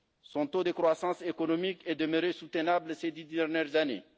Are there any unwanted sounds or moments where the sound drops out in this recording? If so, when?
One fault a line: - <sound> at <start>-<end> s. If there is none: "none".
none